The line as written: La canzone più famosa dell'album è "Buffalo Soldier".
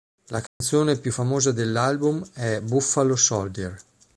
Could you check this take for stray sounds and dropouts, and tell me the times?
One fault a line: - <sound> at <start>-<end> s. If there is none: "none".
- dropout at 0.5-0.6 s